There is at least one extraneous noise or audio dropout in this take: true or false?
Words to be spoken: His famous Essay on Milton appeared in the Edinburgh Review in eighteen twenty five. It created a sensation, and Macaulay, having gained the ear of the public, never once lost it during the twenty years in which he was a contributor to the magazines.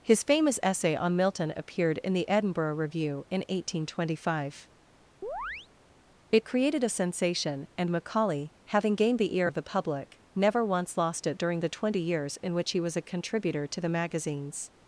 true